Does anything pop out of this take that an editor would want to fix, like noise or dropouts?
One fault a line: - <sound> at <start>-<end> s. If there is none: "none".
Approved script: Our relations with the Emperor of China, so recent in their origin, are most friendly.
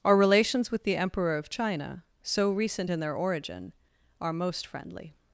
none